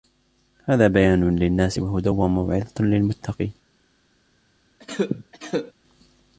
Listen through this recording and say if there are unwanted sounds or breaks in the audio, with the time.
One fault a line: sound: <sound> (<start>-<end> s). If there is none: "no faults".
sound: cough (4.8-5.7 s)